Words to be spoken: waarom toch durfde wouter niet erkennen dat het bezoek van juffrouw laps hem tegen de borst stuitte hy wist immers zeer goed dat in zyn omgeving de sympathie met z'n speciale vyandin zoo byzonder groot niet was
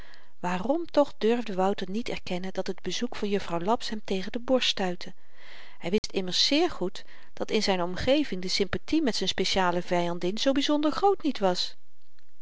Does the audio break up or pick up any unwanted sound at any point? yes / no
yes